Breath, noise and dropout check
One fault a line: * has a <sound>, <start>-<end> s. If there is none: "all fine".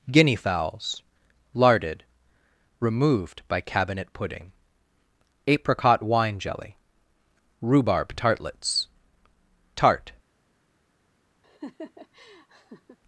* has a laugh, 11.4-13.0 s